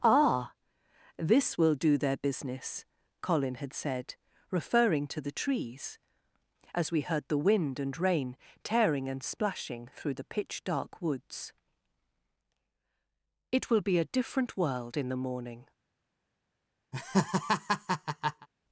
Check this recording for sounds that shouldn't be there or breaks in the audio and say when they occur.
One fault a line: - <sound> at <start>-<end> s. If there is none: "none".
- laugh at 16.9-18.5 s